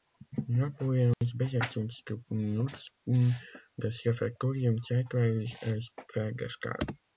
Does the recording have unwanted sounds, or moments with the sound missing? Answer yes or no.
yes